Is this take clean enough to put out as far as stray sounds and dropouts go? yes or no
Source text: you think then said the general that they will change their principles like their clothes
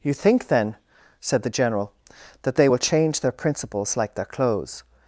yes